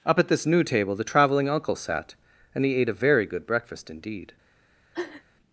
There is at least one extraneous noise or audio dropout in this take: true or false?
true